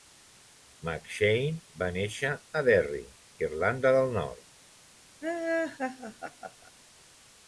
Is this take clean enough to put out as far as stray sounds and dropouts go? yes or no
no